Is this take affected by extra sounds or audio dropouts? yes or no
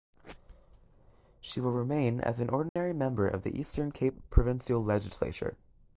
yes